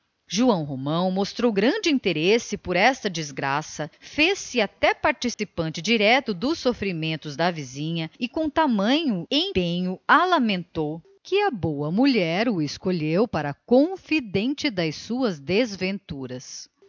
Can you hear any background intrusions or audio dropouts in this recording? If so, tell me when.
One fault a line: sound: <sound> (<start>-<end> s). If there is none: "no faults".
sound: dropout (5.3-5.4 s)